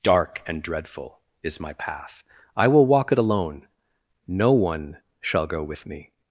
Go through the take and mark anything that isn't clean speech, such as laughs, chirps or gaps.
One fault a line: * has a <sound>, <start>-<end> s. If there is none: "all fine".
all fine